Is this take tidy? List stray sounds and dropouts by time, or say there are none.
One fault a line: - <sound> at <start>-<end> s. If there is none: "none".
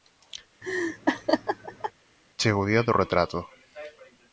- laugh at 0.6-1.9 s